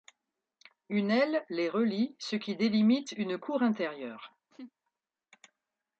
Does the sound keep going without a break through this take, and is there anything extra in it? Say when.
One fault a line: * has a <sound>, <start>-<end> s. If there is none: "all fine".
* has a laugh, 4.5-4.7 s